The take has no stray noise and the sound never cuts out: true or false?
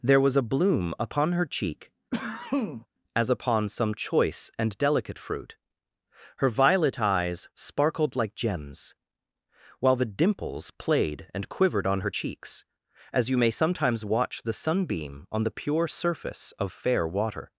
false